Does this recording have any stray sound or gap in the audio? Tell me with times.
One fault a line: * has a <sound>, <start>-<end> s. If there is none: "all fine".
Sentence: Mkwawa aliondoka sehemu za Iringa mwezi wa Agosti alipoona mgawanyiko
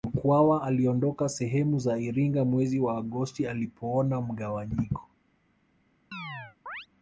* has a chirp, 6.1-6.9 s